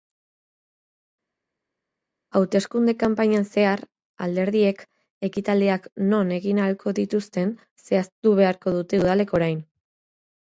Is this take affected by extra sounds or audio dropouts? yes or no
no